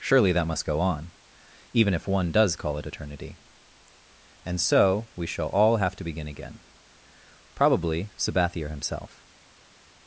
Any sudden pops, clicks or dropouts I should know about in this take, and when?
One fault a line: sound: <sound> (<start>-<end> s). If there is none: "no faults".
no faults